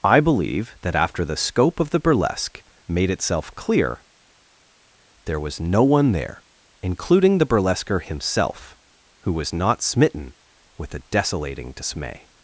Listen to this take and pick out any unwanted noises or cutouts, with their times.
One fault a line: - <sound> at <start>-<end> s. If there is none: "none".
none